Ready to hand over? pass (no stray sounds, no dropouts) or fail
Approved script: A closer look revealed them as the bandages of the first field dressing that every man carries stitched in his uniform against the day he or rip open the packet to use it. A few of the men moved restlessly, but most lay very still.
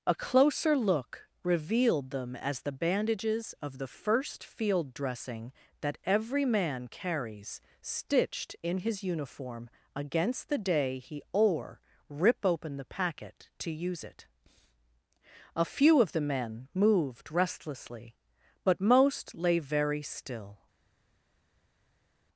pass